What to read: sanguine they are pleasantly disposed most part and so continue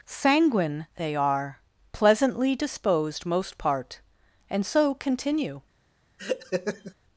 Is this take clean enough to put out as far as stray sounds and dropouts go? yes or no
no